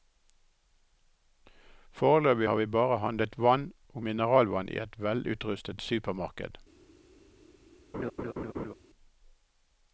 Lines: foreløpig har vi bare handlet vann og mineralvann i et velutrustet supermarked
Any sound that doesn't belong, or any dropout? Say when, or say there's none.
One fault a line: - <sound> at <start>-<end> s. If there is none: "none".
- laugh at 7.9-8.7 s